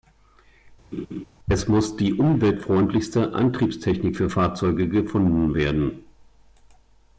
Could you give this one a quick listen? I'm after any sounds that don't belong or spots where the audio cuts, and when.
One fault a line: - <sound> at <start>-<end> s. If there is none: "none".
- laugh at 0.9-1.2 s